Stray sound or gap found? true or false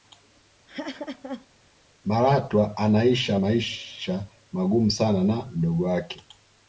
true